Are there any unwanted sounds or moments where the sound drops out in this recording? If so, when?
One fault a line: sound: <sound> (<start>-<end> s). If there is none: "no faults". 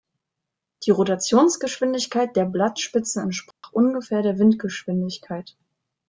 sound: dropout (3.5-3.6 s)